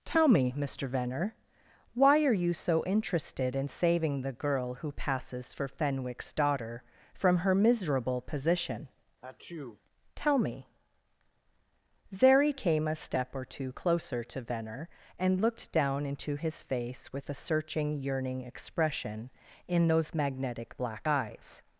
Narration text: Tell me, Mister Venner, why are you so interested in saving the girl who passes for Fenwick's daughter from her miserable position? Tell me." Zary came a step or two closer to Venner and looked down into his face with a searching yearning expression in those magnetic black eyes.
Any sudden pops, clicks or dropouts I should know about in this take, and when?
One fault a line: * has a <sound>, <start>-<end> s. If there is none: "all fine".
* has a sneeze, 9.2-9.8 s